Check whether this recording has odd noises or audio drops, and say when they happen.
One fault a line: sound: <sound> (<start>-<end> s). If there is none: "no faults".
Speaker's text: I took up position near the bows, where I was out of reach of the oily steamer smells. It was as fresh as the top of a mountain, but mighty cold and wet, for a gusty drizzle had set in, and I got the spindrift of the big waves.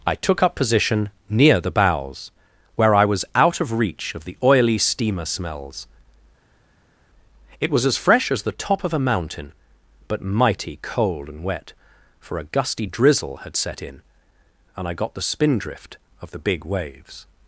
no faults